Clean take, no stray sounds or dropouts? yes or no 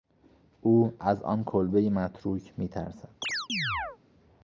no